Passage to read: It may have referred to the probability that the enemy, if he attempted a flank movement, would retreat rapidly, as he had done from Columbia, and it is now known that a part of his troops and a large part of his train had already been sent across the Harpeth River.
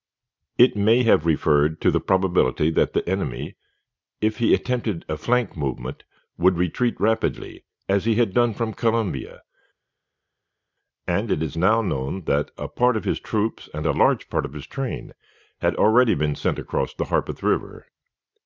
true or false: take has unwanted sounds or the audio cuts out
false